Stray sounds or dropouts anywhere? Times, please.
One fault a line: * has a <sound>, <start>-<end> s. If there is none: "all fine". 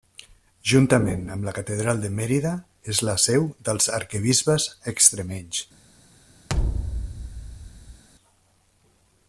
* has a thud, 6.5-8.0 s